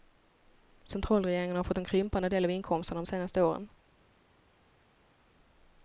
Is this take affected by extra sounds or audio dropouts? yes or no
no